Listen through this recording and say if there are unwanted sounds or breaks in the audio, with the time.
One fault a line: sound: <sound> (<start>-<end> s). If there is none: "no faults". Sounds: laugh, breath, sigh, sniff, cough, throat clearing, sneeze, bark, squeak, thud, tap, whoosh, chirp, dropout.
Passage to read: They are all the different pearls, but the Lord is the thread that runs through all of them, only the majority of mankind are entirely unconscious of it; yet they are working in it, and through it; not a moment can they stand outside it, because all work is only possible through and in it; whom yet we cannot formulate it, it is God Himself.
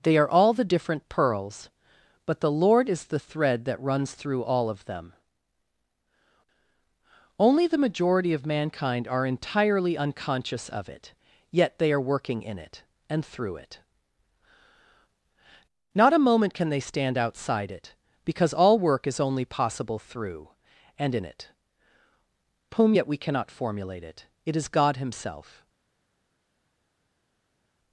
no faults